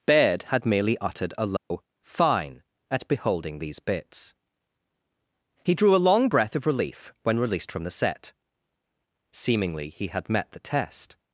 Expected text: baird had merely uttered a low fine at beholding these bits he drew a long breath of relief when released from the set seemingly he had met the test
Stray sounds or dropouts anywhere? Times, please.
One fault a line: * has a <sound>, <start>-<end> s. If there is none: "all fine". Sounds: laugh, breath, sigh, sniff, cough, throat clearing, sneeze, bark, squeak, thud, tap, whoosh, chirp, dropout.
* has a dropout, 1.6-1.7 s